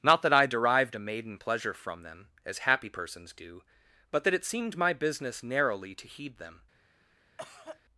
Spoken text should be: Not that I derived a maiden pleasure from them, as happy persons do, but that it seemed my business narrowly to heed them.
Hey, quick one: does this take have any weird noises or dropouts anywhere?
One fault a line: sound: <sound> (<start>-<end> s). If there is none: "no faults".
sound: cough (7.4-7.8 s)